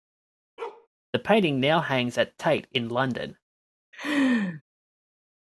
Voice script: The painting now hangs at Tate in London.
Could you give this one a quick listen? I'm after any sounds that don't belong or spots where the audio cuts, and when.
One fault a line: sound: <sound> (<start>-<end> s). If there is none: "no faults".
sound: bark (0.6-0.9 s)
sound: laugh (3.9-4.6 s)